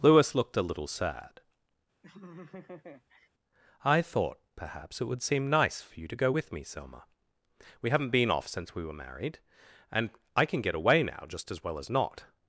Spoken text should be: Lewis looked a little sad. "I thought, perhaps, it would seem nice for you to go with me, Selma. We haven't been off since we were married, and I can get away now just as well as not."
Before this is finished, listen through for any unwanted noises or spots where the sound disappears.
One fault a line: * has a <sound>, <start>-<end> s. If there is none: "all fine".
* has a laugh, 2.0-3.3 s